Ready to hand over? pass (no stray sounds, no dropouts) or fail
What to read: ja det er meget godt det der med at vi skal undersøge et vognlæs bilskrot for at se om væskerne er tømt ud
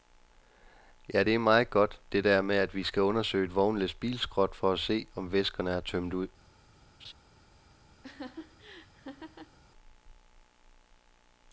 fail